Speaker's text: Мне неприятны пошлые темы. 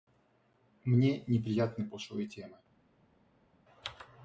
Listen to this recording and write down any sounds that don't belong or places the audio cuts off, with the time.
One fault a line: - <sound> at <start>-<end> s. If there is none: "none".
none